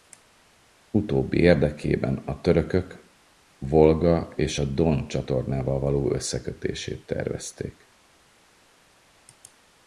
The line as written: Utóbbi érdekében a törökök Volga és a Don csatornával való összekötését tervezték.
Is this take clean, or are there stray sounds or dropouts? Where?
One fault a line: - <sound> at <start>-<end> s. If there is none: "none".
none